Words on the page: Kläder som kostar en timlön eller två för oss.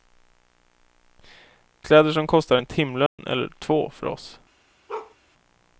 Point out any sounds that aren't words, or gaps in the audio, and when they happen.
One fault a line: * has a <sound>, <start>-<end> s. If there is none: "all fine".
* has a dropout, 3.1-3.2 s
* has a bark, 4.9-5.2 s